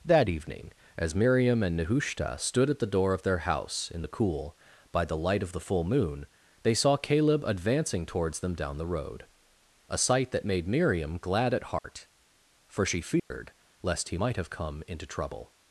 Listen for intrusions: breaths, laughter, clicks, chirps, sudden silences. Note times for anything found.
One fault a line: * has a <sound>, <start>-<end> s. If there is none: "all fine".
* has a dropout, 11.8-11.8 s
* has a dropout, 13.2-13.3 s